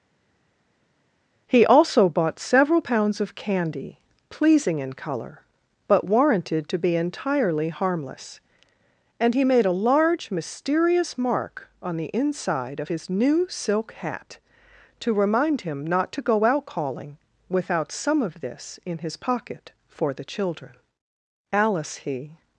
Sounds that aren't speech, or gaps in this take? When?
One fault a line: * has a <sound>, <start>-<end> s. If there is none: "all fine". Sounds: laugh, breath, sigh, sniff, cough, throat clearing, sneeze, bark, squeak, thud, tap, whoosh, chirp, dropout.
all fine